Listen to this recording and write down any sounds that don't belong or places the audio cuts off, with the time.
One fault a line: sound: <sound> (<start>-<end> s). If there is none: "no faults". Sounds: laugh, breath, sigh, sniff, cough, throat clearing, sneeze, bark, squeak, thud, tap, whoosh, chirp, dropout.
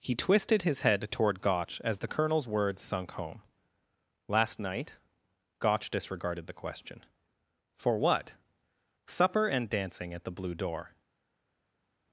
no faults